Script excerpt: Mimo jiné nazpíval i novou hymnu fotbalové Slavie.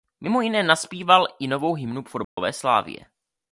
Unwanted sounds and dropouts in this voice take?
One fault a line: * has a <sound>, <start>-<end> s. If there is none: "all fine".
* has a dropout, 2.2-2.4 s